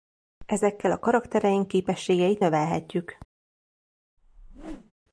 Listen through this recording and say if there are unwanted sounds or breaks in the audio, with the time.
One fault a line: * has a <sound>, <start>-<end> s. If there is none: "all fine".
* has a whoosh, 4.2-4.9 s